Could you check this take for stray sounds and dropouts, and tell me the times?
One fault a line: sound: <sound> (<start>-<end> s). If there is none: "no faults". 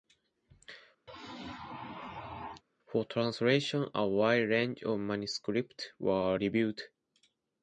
sound: sneeze (1.1-2.6 s)